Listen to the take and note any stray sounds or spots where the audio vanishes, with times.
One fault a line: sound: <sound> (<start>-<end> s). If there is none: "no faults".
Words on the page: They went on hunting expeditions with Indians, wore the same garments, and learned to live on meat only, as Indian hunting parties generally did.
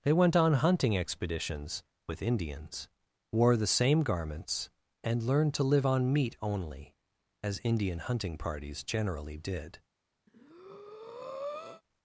sound: breath (10.3-11.8 s)